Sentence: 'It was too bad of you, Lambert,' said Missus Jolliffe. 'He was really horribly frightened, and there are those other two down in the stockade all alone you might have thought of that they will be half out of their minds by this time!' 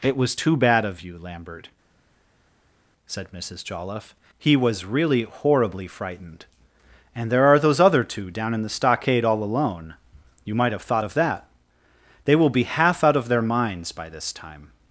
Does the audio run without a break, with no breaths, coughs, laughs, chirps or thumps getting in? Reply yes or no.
yes